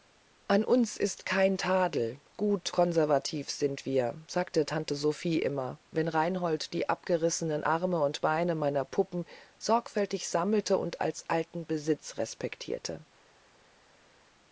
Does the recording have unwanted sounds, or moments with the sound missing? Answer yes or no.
no